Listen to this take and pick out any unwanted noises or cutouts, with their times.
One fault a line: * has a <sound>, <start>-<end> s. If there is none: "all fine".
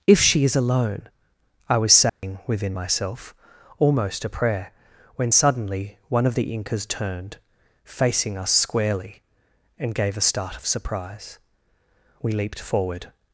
* has a dropout, 2.1-2.2 s